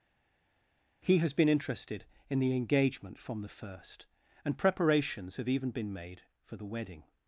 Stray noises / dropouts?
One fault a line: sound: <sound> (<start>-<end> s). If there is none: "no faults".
no faults